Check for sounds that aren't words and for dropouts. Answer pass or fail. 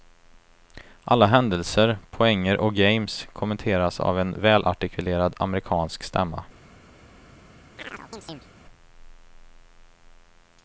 fail